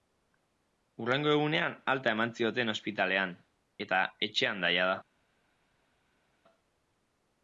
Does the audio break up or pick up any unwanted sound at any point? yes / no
no